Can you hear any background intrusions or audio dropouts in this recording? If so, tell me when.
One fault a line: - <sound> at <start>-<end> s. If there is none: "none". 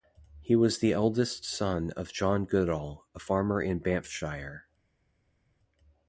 none